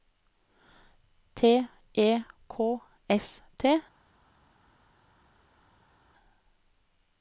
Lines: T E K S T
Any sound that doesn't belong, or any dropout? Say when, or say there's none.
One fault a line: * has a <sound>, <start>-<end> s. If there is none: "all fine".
all fine